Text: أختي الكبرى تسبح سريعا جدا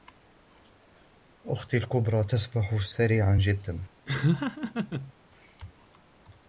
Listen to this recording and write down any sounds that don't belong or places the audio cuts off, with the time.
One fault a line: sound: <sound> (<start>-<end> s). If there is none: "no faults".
sound: laugh (4.1-5.1 s)